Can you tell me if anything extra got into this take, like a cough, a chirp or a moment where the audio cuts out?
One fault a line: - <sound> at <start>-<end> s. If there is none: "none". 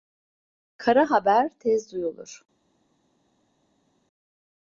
none